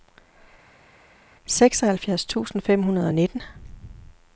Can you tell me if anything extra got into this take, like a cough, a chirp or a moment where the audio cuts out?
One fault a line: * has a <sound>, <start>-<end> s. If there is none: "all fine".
all fine